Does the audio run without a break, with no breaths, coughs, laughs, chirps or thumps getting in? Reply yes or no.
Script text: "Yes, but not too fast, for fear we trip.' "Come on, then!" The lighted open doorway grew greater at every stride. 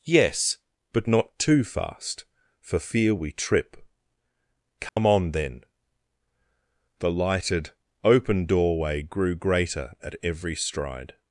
no